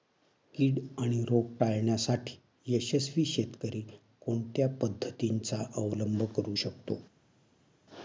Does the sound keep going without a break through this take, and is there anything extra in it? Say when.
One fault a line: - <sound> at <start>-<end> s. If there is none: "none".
none